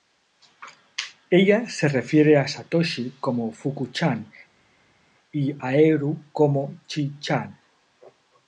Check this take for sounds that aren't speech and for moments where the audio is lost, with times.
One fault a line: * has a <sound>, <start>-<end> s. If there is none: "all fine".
all fine